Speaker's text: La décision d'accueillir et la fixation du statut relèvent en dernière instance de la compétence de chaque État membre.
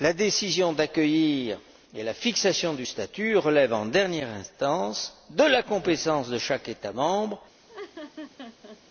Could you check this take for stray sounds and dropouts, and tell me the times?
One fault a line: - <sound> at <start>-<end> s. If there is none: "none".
- laugh at 7.7-8.8 s